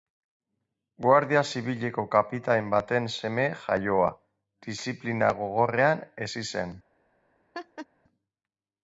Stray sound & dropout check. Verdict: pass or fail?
fail